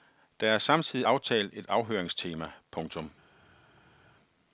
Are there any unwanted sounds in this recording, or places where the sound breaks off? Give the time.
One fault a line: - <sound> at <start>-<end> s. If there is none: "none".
none